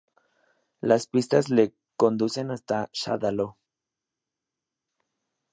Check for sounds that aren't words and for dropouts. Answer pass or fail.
pass